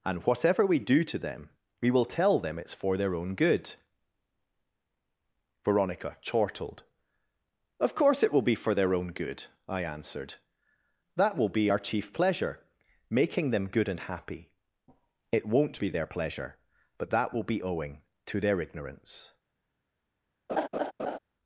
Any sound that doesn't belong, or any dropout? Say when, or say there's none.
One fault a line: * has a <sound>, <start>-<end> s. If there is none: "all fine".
* has a laugh, 20.5-21.2 s